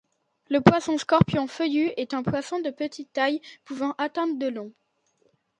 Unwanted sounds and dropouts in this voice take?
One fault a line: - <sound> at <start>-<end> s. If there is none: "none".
none